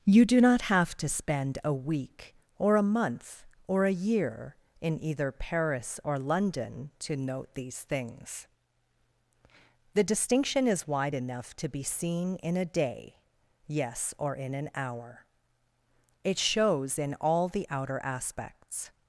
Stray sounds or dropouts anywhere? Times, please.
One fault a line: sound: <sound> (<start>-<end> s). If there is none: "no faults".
no faults